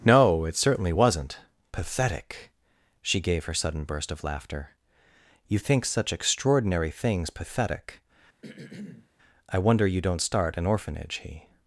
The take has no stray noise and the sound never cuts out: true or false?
false